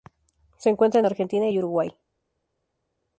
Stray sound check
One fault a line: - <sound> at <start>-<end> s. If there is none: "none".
none